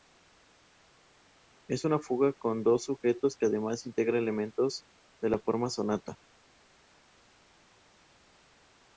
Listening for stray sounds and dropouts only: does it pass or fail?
pass